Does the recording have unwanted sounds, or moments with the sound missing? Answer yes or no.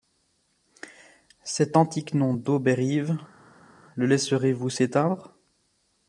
no